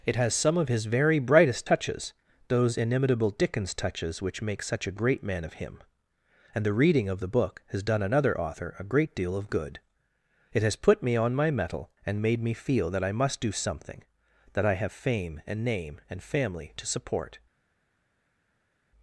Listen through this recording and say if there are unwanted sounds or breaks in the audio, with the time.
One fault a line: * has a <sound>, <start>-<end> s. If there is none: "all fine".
all fine